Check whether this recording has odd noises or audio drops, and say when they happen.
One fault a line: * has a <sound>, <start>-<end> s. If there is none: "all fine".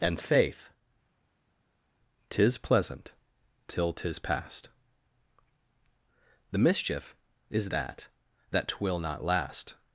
all fine